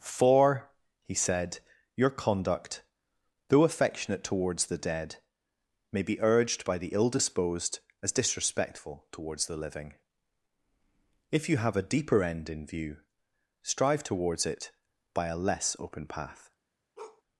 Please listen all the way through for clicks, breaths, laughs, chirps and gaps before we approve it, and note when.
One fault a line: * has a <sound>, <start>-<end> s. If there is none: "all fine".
* has a bark, 17.0-17.2 s